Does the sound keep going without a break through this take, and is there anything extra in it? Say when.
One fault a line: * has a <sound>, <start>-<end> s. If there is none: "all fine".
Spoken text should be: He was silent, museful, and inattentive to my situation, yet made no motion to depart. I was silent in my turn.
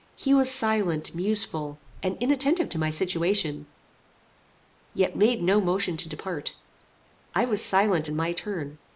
all fine